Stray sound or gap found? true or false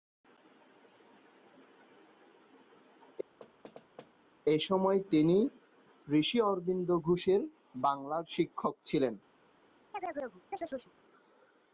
true